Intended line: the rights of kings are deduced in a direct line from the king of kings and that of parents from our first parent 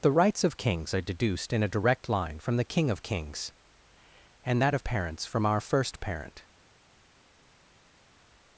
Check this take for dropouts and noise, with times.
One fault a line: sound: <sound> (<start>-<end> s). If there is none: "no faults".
no faults